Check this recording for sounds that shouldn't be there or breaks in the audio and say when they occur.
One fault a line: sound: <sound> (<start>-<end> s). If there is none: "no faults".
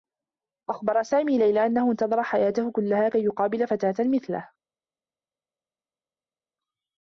no faults